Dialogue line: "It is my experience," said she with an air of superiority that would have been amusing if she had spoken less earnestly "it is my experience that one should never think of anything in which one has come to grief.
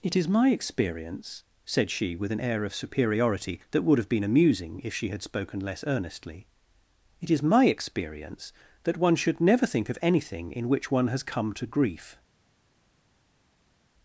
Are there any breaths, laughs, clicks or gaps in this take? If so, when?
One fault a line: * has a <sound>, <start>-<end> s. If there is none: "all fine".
all fine